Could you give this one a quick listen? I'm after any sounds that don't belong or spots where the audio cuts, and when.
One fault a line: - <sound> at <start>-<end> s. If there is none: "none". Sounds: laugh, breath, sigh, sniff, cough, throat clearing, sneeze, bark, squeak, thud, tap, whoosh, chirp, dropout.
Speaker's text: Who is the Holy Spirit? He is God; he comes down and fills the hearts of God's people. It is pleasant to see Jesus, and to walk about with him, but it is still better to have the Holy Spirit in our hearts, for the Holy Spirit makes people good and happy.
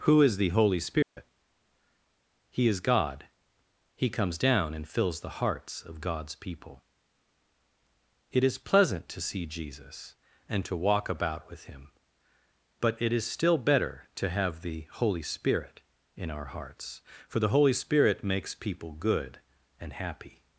- dropout at 1.0-1.2 s